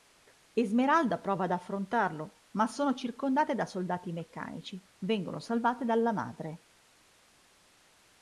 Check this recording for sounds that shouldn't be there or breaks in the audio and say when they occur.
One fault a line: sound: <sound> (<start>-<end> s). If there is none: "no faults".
no faults